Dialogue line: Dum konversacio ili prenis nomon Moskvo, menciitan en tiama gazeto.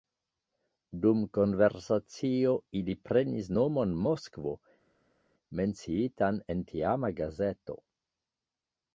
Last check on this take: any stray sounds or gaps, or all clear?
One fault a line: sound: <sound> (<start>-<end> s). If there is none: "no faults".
no faults